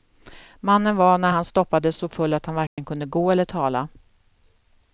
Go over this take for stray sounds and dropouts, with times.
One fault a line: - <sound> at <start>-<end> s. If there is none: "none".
- dropout at 2.7-2.8 s